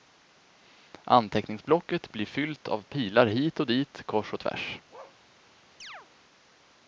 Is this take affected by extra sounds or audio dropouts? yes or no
yes